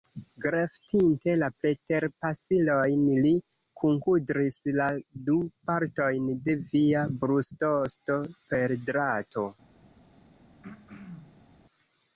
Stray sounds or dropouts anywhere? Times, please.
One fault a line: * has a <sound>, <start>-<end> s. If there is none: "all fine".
* has a throat clearing, 10.6-11.5 s